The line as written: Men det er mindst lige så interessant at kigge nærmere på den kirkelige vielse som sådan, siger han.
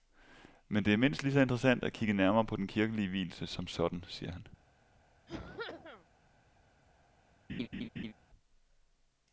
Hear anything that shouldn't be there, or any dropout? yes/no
yes